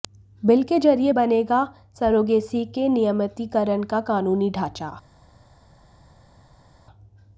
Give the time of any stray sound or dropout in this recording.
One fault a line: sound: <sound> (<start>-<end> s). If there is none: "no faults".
no faults